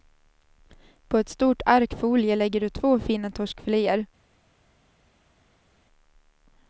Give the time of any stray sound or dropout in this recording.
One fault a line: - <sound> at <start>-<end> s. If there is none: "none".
none